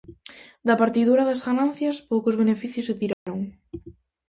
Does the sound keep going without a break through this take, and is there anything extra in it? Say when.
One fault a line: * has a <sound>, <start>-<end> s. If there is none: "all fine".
* has a dropout, 3.1-3.3 s